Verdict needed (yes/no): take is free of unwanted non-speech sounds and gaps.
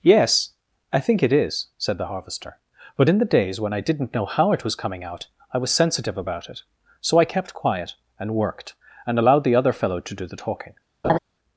no